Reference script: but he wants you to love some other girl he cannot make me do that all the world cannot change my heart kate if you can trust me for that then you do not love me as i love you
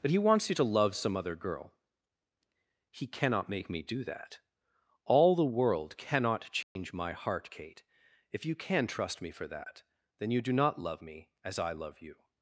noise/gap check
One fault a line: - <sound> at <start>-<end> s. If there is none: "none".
- dropout at 6.6-6.8 s